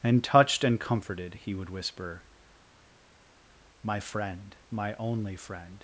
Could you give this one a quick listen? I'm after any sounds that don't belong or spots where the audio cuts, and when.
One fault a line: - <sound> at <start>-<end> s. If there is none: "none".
none